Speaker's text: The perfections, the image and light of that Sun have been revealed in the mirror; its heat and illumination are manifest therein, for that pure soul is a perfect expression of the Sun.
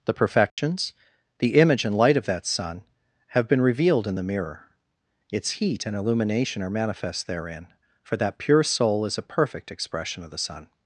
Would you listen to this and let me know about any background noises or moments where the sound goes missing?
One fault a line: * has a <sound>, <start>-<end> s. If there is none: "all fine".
* has a dropout, 0.5-0.6 s